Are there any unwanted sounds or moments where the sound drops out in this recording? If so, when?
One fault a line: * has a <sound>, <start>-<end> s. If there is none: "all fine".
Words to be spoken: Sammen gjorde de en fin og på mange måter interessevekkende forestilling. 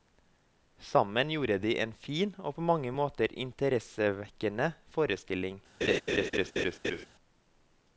* has a laugh, 5.8-7.1 s